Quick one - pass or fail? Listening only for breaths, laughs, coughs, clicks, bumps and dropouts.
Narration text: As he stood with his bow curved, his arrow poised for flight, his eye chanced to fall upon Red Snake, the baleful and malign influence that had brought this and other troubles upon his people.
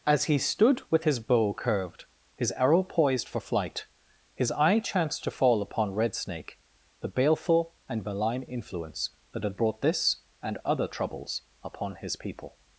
pass